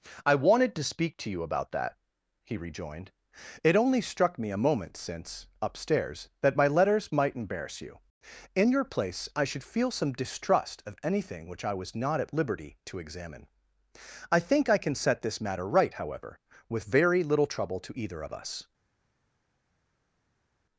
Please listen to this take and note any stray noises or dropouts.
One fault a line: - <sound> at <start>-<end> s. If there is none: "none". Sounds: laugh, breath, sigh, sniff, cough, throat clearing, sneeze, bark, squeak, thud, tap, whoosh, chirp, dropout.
none